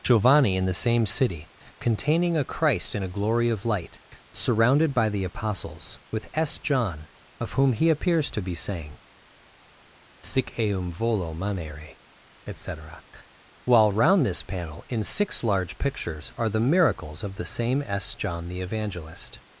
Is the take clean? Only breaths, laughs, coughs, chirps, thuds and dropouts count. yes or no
yes